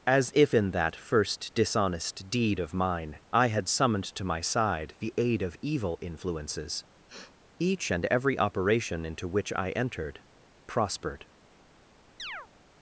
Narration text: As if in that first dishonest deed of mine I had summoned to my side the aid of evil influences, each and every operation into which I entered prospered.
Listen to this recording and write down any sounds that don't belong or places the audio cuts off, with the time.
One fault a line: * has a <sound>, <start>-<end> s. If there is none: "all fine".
* has a sniff, 7.1-7.4 s
* has a chirp, 12.2-12.5 s